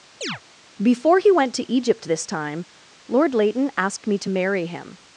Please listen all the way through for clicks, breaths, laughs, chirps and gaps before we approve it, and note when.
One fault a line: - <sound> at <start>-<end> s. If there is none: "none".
- chirp at 0.2-0.4 s